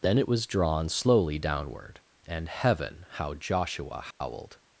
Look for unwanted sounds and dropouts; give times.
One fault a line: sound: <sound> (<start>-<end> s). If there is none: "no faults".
sound: dropout (4.1-4.2 s)